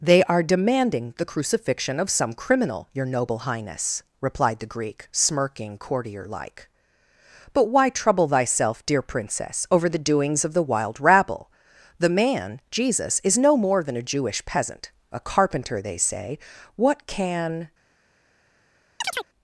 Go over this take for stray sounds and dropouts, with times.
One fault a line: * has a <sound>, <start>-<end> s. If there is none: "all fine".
* has a chirp, 19.0-19.3 s